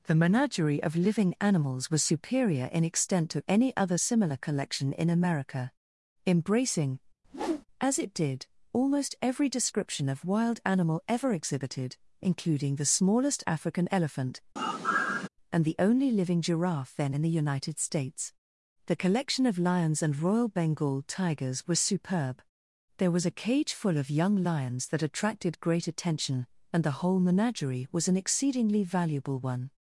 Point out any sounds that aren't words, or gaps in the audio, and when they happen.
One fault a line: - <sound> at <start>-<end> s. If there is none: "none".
- whoosh at 7.2-7.7 s
- sigh at 14.6-15.3 s